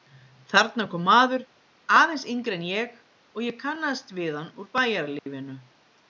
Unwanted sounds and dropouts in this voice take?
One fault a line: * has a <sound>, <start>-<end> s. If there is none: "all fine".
* has a dropout, 5.2-5.3 s